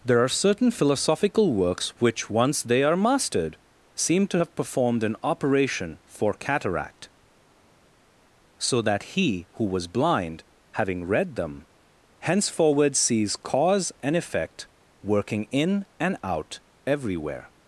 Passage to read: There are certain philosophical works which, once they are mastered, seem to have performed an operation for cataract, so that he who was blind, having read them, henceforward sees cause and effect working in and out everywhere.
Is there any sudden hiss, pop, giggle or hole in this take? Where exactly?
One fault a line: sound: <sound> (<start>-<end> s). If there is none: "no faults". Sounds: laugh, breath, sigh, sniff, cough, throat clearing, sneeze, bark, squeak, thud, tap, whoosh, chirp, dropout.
no faults